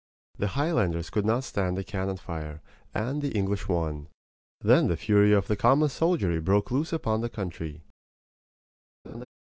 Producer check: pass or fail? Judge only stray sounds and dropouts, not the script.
fail